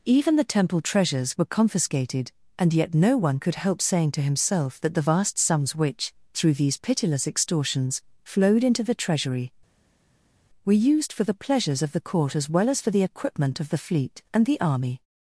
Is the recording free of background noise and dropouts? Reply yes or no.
yes